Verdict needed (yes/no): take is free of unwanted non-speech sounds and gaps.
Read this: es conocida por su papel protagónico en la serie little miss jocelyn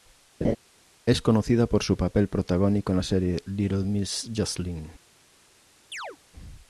no